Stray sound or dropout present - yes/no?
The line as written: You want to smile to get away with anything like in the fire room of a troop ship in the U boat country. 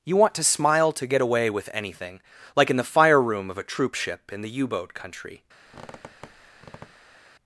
yes